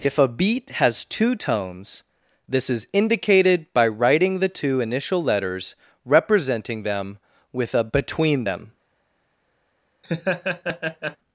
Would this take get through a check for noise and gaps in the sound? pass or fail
fail